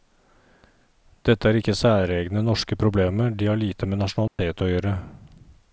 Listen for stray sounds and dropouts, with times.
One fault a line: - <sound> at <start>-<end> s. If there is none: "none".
- dropout at 4.3-4.4 s